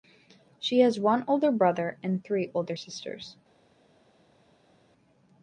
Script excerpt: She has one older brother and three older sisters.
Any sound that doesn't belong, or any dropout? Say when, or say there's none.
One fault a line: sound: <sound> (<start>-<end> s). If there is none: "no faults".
no faults